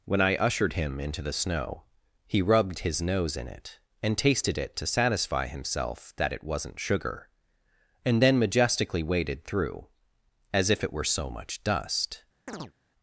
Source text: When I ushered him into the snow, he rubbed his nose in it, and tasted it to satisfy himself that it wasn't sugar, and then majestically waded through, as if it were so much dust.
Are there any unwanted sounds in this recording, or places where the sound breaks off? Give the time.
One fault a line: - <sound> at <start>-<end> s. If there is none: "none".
- chirp at 12.5-12.7 s